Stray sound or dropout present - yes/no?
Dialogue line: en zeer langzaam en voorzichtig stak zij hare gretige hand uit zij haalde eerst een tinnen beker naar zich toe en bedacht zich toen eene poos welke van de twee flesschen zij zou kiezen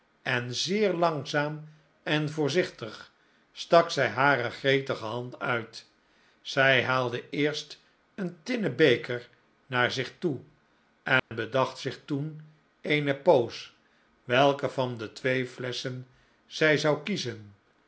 yes